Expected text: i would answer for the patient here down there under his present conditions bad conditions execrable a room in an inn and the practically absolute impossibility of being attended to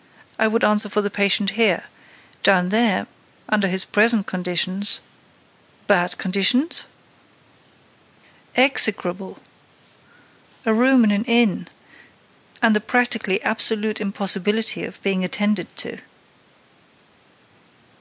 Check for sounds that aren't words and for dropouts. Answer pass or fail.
pass